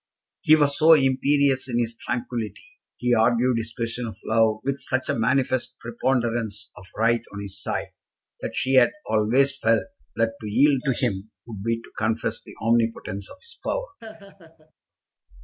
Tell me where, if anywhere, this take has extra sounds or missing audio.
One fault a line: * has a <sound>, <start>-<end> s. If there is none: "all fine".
* has a laugh, 14.0-14.7 s